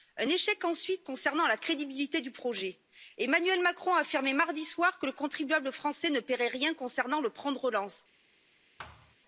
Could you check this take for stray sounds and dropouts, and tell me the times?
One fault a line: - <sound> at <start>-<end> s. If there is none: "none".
- thud at 8.8-9.2 s